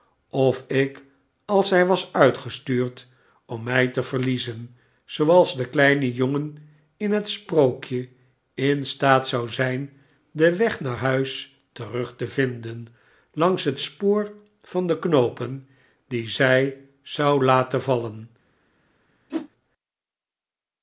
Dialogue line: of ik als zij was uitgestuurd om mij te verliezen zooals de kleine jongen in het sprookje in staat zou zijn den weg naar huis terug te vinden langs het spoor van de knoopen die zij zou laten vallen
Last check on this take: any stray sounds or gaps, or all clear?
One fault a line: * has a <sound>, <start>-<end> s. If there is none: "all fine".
* has a whoosh, 19.3-19.5 s